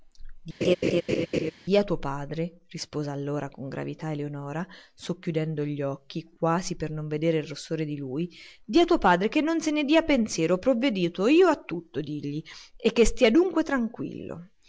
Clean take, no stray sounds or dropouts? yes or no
no